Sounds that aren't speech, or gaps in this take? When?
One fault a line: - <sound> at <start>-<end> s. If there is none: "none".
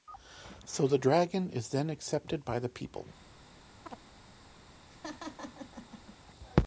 - chirp at 3.9-4.0 s
- laugh at 4.9-6.2 s